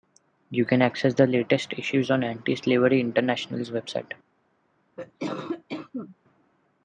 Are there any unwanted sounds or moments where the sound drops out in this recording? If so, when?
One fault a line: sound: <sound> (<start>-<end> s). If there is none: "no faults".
sound: cough (5.0-6.2 s)